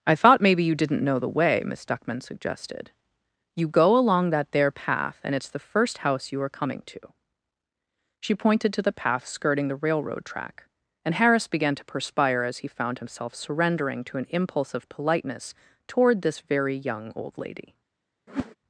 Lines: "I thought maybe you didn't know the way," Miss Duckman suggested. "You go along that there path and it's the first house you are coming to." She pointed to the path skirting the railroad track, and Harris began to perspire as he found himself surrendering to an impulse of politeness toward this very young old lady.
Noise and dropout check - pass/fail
fail